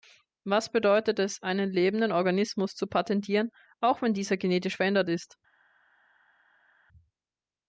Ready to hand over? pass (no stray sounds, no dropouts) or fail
pass